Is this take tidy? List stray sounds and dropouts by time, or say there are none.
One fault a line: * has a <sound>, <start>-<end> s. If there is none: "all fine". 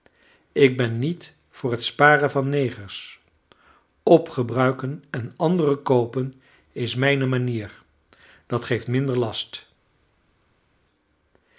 all fine